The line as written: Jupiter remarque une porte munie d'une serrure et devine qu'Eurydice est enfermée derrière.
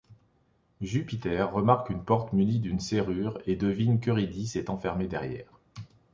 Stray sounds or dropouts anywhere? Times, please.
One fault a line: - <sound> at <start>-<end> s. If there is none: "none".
none